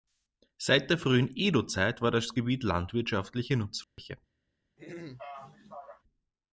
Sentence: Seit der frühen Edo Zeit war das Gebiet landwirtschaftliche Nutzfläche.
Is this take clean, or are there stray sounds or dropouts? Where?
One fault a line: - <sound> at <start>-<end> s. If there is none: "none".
- dropout at 3.8-4.0 s
- throat clearing at 4.8-6.0 s